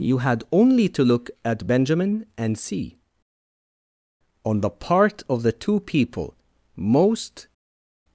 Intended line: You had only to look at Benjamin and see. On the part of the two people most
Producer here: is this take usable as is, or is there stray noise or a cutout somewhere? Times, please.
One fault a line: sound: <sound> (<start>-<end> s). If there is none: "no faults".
no faults